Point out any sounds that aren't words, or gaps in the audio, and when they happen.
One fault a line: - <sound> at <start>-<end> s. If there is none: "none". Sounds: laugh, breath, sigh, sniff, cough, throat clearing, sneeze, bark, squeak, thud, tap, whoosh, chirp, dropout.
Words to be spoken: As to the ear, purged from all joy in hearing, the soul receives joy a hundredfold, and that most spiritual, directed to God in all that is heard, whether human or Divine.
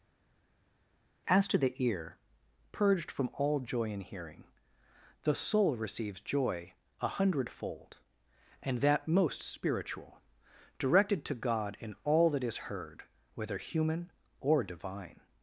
none